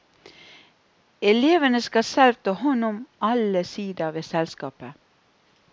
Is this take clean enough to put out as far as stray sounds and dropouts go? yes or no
yes